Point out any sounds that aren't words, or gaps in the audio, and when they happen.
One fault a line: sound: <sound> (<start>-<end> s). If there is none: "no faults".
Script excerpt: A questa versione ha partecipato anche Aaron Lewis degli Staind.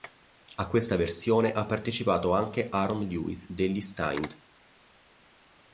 no faults